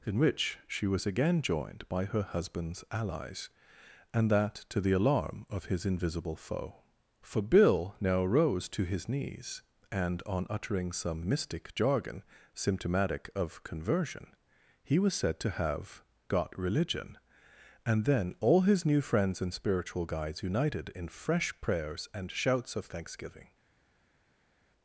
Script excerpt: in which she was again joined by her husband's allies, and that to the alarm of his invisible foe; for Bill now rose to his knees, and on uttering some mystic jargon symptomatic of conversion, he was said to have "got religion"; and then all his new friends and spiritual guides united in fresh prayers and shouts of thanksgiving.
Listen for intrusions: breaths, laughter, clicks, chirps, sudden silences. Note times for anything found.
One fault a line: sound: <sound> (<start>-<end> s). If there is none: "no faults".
no faults